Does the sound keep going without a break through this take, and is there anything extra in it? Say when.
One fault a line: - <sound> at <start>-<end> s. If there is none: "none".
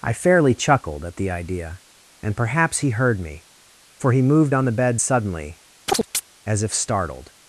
- chirp at 5.9-6.2 s